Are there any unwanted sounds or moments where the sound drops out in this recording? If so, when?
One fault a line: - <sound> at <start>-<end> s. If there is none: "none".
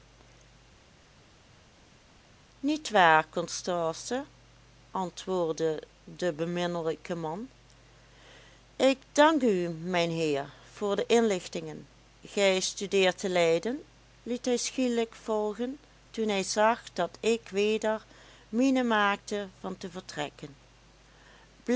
none